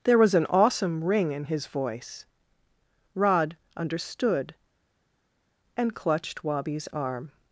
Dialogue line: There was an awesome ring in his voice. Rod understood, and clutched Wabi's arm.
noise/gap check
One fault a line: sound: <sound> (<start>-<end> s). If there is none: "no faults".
no faults